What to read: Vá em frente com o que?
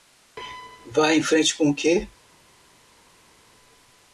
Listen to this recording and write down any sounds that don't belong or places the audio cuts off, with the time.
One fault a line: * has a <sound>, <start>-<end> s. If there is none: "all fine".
all fine